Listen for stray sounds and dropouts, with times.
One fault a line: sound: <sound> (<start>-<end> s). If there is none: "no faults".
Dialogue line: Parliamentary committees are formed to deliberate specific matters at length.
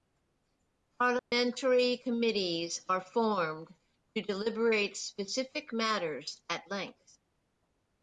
sound: dropout (1.2-1.3 s)